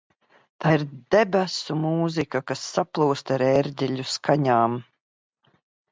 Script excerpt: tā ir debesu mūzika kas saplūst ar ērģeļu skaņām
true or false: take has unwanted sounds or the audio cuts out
false